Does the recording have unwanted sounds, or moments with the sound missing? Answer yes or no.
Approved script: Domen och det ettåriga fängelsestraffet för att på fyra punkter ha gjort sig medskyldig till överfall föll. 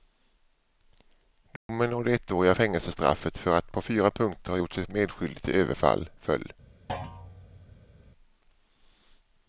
yes